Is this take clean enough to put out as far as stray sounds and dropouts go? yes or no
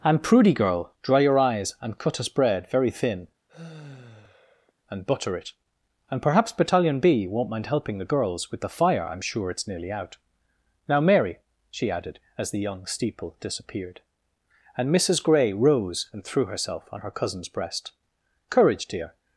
no